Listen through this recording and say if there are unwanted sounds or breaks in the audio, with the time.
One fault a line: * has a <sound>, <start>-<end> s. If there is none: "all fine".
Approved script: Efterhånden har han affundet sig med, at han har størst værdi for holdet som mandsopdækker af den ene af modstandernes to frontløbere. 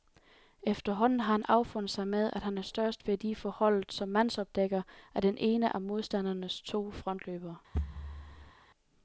* has a thud, 7.7-8.5 s